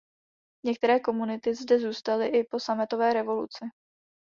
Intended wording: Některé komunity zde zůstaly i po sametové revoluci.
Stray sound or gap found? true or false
false